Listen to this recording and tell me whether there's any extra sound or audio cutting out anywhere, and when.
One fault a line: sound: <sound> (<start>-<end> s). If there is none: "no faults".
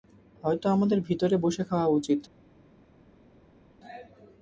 no faults